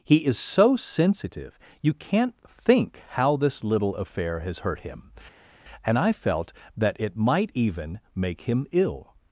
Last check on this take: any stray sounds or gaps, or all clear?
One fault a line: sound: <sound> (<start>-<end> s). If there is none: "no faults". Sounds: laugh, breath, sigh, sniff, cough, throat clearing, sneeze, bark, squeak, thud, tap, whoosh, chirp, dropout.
no faults